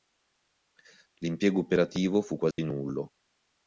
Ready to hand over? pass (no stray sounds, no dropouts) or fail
fail